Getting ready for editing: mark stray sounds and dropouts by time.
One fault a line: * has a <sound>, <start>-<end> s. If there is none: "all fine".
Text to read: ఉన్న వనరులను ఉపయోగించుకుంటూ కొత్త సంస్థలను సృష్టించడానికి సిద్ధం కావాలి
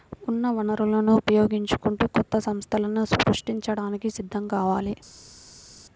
all fine